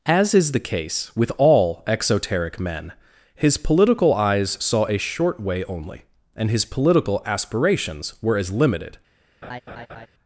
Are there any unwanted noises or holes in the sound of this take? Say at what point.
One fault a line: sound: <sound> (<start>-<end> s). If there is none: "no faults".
sound: laugh (9.4-10.1 s)